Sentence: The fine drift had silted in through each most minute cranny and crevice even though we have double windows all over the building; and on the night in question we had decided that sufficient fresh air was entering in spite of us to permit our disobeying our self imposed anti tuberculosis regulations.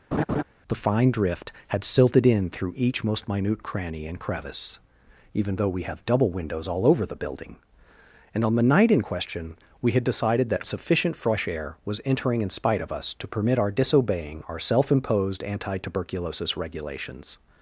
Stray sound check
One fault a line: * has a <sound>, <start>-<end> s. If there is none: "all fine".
* has a laugh, 0.1-0.4 s